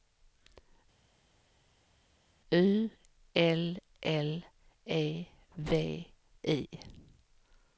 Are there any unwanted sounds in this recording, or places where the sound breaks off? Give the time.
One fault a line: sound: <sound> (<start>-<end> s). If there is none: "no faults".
no faults